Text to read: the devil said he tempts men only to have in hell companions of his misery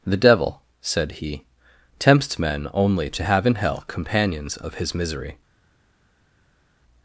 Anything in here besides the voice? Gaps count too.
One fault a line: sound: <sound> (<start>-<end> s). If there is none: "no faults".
no faults